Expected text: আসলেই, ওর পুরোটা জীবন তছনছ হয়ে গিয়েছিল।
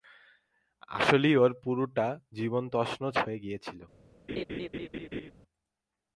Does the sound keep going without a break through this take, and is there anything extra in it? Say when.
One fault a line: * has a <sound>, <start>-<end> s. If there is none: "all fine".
* has a laugh, 4.3-5.3 s